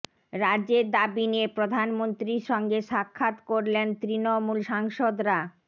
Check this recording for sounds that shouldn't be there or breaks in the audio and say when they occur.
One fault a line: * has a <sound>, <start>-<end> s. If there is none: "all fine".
all fine